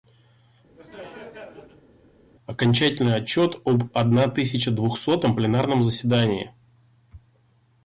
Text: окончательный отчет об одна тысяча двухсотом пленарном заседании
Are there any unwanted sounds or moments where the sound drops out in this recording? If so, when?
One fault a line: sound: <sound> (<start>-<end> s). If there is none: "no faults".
sound: laugh (0.8-1.9 s)